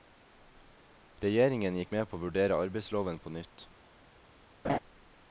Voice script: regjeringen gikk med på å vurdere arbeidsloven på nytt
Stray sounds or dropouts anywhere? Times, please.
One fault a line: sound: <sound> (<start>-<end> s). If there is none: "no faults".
sound: laugh (4.6-4.8 s)